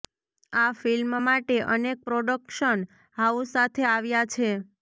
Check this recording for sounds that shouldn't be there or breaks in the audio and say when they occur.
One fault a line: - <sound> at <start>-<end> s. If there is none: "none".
none